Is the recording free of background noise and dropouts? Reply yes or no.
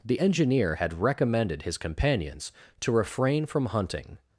yes